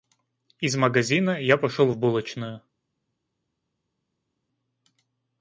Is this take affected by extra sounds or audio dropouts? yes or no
no